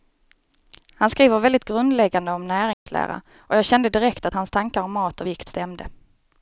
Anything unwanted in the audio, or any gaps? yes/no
yes